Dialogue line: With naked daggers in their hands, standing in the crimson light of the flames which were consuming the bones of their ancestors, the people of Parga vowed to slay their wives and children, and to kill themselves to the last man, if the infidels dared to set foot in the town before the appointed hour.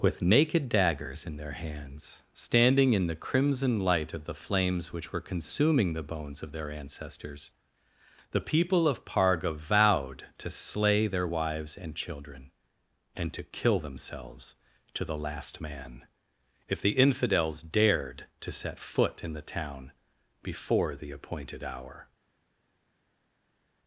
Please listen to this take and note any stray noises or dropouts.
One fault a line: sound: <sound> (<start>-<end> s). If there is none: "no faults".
no faults